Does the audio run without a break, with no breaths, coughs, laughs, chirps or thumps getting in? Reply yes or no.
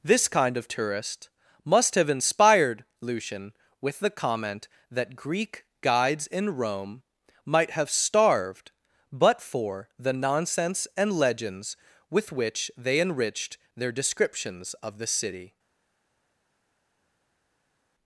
yes